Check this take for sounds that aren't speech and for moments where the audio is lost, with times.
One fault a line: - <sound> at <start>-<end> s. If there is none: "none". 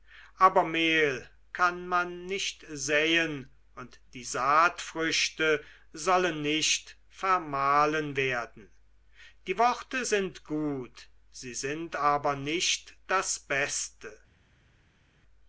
none